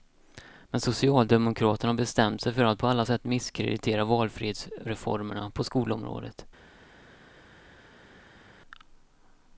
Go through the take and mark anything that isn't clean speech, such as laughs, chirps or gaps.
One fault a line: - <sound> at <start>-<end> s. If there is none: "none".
none